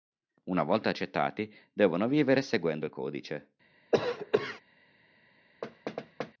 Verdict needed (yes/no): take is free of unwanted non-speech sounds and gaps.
no